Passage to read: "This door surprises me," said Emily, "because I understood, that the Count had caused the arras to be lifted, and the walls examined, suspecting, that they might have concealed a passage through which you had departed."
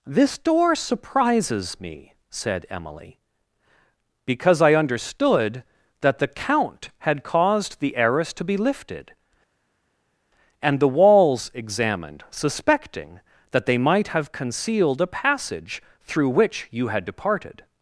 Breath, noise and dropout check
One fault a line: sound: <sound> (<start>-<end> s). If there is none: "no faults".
no faults